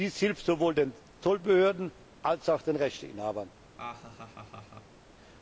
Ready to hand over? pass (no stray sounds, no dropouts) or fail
fail